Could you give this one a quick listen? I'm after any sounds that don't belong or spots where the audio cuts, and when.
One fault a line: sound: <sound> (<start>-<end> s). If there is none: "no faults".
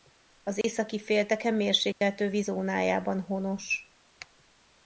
sound: dropout (0.6-0.6 s)
sound: dropout (1.9-2.0 s)